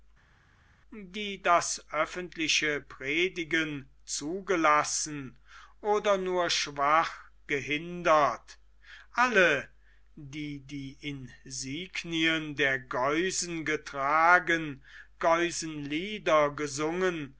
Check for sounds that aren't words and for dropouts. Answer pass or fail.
pass